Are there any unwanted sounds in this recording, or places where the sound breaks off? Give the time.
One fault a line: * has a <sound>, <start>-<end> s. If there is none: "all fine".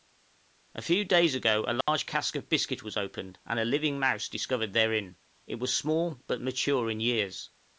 * has a dropout, 1.8-1.9 s